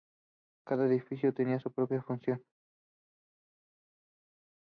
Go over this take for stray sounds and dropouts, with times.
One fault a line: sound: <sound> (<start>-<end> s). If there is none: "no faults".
no faults